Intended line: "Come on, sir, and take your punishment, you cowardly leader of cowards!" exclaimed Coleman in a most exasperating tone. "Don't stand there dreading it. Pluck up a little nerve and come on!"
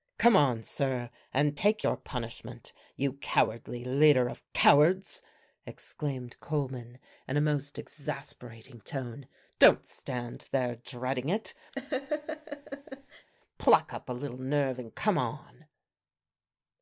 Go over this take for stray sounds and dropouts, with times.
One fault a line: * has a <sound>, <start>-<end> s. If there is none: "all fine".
* has a laugh, 11.7-13.3 s